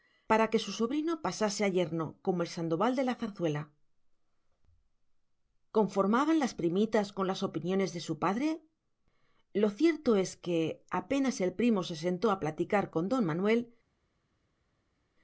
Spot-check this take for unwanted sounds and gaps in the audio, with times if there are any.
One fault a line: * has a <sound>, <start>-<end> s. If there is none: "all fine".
all fine